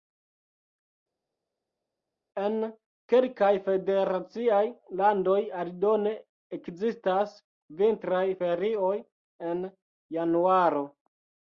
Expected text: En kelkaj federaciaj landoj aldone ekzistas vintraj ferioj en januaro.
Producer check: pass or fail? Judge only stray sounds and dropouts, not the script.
pass